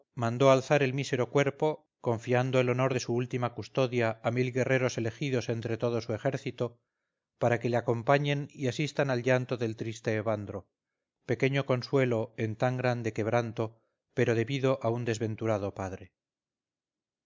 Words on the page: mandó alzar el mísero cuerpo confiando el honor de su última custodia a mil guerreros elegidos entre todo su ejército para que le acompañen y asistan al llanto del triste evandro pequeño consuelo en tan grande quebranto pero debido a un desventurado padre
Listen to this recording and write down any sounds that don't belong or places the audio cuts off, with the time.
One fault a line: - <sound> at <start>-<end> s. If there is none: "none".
none